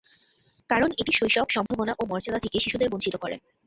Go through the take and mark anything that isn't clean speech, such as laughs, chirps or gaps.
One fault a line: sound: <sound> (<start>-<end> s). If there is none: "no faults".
sound: dropout (1.7-1.7 s)